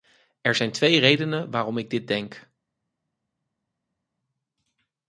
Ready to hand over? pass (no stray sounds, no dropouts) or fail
pass